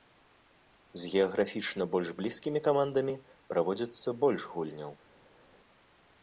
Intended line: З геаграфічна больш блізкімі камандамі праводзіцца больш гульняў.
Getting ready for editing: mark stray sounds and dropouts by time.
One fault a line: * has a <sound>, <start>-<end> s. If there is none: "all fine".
all fine